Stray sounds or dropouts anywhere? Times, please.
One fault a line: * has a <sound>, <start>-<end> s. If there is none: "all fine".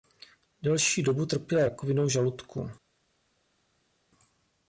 all fine